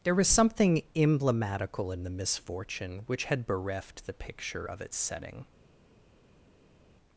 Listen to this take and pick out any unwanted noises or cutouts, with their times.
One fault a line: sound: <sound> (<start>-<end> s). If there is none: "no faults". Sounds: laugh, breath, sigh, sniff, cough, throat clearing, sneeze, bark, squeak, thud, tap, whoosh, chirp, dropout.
no faults